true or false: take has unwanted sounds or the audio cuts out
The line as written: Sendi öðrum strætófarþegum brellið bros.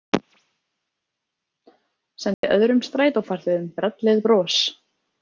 true